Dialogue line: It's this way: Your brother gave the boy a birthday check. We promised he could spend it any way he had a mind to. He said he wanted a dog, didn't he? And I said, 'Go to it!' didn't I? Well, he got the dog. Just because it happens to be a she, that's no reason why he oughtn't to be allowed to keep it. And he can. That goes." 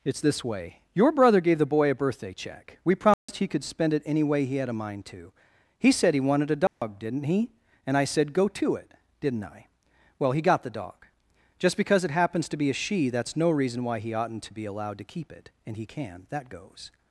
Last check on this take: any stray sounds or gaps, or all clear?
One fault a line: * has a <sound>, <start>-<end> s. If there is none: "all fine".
* has a dropout, 3.1-3.3 s
* has a dropout, 6.7-6.8 s